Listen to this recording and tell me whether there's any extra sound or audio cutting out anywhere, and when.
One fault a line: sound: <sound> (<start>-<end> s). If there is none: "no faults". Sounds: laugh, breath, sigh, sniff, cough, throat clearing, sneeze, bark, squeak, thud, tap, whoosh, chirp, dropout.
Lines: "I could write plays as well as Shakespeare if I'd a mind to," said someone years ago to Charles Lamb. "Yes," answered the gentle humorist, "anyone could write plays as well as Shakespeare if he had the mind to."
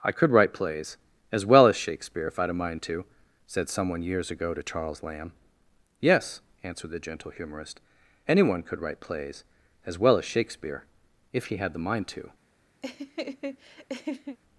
sound: laugh (12.8-14.4 s)